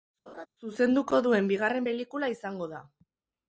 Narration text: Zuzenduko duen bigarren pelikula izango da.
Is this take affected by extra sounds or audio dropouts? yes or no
yes